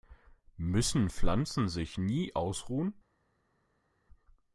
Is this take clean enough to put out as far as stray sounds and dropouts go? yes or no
yes